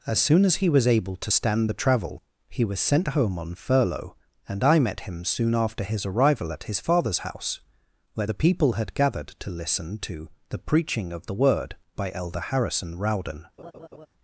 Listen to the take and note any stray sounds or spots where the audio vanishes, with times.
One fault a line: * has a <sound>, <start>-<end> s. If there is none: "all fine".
* has a laugh, 13.6-14.1 s